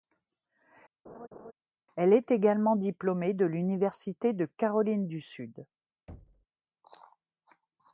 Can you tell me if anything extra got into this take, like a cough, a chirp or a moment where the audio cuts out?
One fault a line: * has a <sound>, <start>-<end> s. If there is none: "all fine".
* has a laugh, 1.0-1.5 s
* has a thud, 6.1-6.5 s